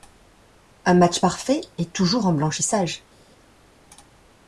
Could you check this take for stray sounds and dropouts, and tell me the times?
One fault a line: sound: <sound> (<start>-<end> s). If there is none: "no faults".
no faults